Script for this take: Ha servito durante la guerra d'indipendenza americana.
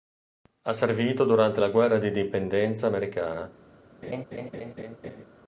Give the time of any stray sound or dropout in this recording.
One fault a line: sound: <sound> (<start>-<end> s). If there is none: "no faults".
sound: laugh (4.0-5.3 s)